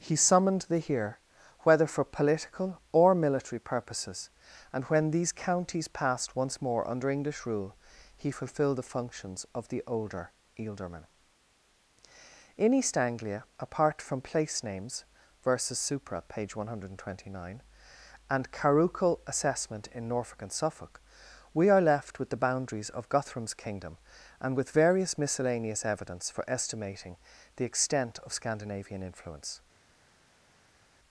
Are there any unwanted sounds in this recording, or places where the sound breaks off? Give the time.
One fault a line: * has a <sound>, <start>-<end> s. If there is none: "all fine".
all fine